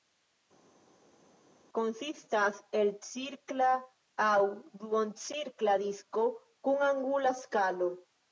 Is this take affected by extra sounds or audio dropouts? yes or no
no